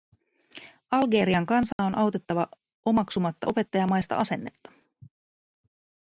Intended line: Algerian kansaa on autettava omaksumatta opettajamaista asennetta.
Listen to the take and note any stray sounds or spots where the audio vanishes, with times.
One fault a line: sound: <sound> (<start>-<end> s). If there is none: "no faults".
sound: dropout (1.7-1.8 s)